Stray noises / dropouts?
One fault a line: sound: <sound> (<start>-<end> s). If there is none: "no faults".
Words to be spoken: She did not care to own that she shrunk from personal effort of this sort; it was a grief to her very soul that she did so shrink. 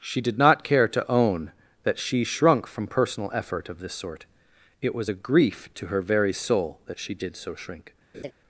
sound: laugh (8.1-8.3 s)